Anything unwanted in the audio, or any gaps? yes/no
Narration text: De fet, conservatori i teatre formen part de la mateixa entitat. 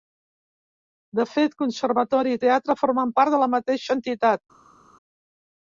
no